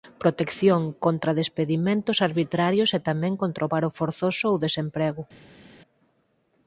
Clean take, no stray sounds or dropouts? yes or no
yes